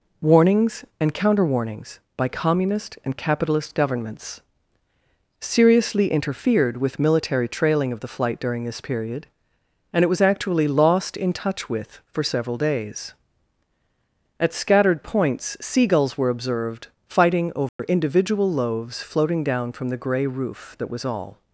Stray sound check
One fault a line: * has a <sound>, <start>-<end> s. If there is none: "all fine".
* has a dropout, 17.7-17.8 s